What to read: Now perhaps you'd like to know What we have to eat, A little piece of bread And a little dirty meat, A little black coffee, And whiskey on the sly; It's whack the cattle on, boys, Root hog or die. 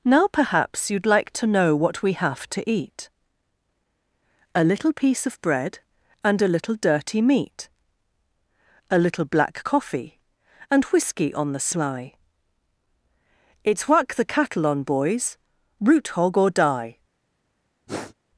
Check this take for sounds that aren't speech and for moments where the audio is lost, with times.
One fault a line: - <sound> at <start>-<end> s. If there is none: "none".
- sniff at 17.9-18.1 s